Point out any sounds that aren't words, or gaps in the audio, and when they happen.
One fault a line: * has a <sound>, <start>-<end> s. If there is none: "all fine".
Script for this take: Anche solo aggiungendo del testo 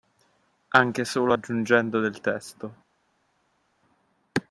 all fine